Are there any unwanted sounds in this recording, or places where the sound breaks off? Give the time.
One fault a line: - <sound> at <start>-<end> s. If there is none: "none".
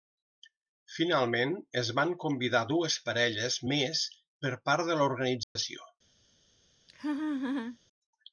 - dropout at 5.4-5.6 s
- laugh at 6.9-7.8 s